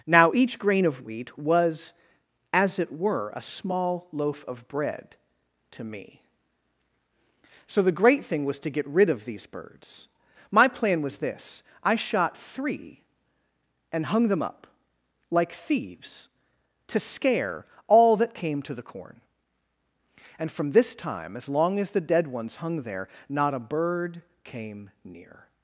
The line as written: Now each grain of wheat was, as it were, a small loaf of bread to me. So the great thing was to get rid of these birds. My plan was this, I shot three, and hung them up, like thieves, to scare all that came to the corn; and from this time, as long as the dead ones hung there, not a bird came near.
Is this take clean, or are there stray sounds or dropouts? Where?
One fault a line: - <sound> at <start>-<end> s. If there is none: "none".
none